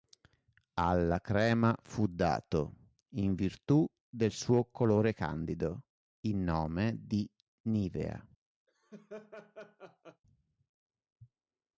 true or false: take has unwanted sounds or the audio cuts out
true